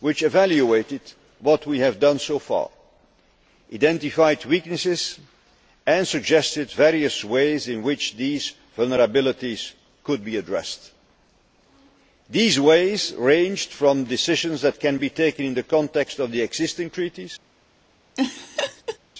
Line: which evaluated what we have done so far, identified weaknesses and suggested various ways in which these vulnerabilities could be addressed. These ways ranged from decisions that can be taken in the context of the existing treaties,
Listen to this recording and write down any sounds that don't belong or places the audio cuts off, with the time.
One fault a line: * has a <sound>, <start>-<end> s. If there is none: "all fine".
* has a laugh, 18.2-19.0 s